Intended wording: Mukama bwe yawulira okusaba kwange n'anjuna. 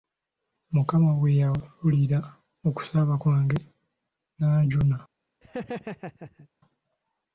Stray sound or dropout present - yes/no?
yes